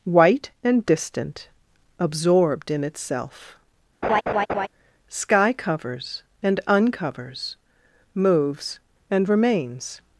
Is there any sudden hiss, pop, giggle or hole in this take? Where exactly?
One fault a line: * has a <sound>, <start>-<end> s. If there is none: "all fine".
* has a laugh, 4.0-4.7 s